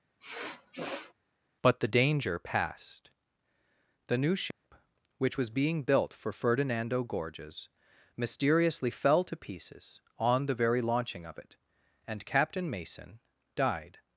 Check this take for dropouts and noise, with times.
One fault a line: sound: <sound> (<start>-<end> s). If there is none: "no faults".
sound: sniff (0.2-1.1 s)
sound: dropout (4.5-4.6 s)